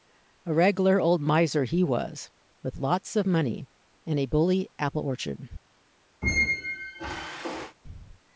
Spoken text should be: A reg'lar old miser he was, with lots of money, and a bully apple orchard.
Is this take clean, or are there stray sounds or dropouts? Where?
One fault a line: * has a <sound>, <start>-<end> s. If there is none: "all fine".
* has a squeak, 6.2-7.8 s